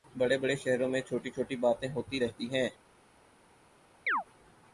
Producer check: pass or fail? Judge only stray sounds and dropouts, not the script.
fail